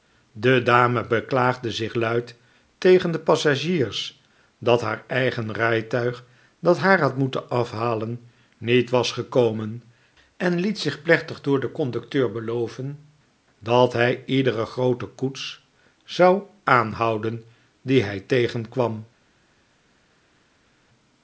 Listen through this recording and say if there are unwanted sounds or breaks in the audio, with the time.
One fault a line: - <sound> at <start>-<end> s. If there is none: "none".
none